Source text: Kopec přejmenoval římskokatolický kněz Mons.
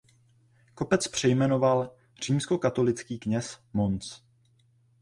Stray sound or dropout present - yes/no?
no